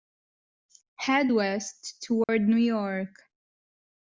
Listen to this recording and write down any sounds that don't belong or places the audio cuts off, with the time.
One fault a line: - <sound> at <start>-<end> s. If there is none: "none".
- dropout at 2.2-2.3 s